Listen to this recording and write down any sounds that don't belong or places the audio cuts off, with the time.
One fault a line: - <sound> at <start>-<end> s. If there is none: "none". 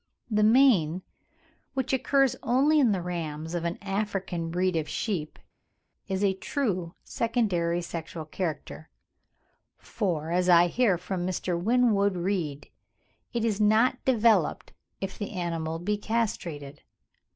none